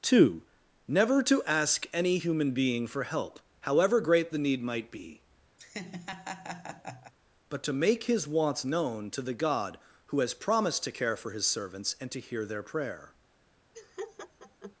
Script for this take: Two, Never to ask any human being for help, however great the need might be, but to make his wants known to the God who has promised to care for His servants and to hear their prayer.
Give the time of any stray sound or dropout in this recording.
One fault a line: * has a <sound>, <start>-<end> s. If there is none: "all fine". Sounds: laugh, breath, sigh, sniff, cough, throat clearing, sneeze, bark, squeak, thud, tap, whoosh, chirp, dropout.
* has a laugh, 5.6-7.1 s
* has a laugh, 13.7-14.8 s